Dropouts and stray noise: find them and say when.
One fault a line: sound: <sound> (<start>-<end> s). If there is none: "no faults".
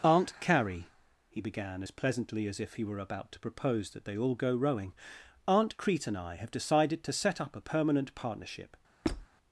sound: squeak (9.0-9.3 s)